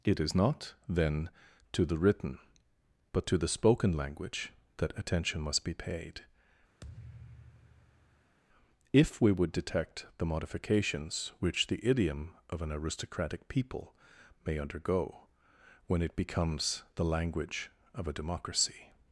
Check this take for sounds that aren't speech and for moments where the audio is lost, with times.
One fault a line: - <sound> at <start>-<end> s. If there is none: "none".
- thud at 6.8-8.4 s